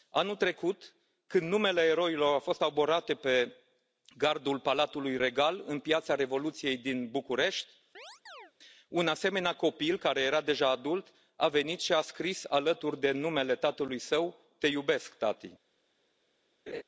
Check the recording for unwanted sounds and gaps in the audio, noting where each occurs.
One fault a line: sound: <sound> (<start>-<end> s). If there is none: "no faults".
sound: chirp (7.9-8.5 s)
sound: laugh (16.7-16.8 s)